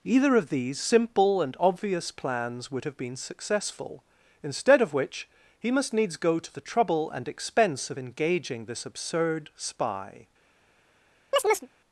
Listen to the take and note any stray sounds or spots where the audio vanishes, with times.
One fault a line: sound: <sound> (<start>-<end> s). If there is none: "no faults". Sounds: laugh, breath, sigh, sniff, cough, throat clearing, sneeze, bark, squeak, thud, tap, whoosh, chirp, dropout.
sound: chirp (11.3-11.7 s)